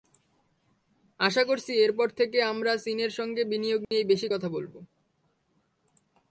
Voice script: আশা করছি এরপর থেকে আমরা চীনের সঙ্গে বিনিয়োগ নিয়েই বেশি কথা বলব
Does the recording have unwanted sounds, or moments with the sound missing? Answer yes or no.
yes